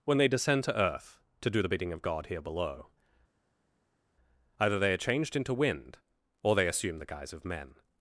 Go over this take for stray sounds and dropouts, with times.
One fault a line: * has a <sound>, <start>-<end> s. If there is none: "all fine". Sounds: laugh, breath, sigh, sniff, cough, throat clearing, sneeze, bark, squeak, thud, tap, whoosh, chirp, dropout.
all fine